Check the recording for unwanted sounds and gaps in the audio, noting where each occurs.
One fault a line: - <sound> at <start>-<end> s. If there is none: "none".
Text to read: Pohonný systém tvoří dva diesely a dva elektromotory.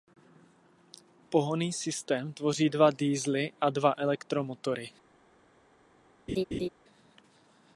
- laugh at 6.3-6.7 s